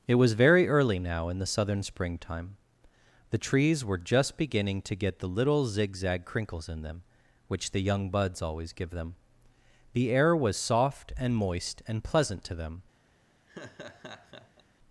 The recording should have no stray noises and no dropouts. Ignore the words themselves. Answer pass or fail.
fail